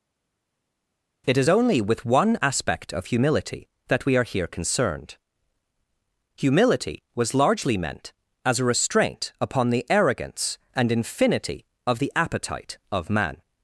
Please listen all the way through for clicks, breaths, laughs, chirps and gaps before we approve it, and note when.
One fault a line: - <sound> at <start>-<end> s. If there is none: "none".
none